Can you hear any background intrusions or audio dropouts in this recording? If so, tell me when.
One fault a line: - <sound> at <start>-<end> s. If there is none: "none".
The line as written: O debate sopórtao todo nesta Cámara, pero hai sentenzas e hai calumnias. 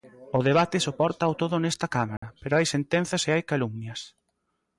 - dropout at 2.2-2.2 s